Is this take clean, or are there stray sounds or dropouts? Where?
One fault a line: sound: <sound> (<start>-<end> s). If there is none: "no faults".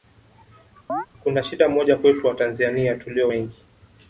sound: chirp (0.9-1.1 s)